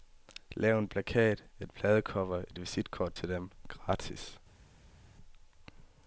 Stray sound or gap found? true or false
false